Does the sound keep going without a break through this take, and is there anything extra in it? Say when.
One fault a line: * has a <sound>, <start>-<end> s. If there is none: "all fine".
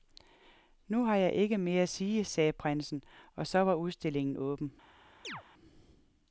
* has a chirp, 5.2-5.4 s